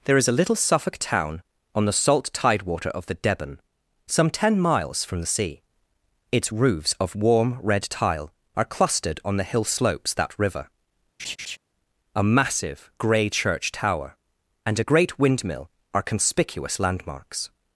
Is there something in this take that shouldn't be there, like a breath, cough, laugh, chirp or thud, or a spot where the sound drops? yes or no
yes